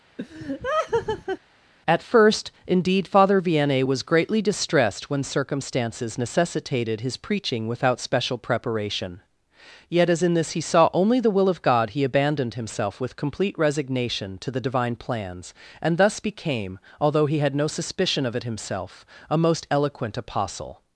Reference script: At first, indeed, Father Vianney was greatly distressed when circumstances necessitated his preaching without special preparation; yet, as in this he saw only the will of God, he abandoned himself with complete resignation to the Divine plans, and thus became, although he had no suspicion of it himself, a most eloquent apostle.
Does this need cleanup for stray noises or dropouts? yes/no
yes